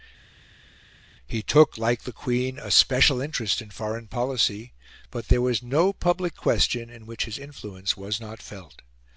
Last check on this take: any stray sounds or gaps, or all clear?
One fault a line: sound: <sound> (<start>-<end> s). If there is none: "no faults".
no faults